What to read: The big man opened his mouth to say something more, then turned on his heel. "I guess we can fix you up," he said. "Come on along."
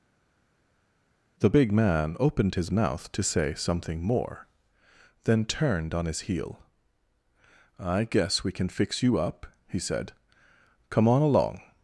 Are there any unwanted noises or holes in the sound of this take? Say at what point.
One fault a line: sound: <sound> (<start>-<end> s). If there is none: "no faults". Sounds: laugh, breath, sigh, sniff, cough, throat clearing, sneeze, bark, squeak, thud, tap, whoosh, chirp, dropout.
no faults